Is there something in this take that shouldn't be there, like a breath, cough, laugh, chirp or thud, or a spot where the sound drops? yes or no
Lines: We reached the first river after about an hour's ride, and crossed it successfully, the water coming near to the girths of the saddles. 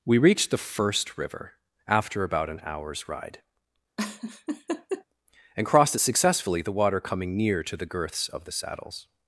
yes